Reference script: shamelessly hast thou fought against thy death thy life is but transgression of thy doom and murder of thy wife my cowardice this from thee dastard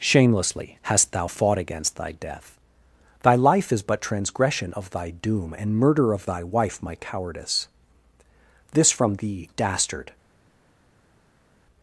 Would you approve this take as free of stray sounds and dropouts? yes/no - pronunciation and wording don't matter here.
yes